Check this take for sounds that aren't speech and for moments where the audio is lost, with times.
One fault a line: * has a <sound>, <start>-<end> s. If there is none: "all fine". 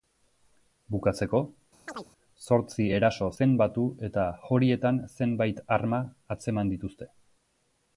* has a chirp, 1.9-2.1 s